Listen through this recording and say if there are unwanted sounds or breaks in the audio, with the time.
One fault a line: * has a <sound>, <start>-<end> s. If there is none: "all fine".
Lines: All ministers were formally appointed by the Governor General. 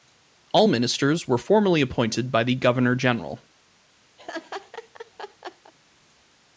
* has a laugh, 4.2-5.7 s